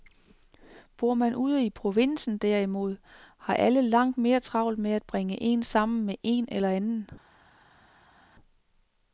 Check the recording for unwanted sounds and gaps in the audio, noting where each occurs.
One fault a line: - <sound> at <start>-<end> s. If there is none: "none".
none